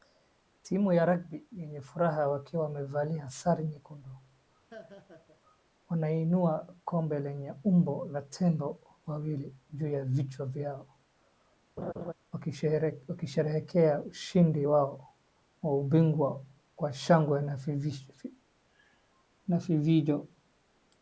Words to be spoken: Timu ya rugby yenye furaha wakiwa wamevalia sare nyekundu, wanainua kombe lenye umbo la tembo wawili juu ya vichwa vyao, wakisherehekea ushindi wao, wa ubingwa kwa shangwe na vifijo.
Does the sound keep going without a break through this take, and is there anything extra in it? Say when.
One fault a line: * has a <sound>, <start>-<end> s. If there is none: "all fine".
* has a laugh, 4.7-5.4 s
* has a laugh, 11.8-12.1 s